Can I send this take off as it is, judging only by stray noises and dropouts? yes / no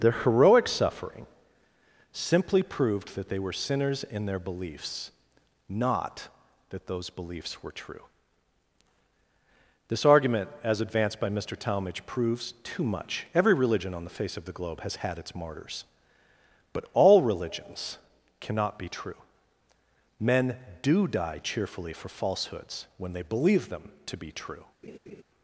no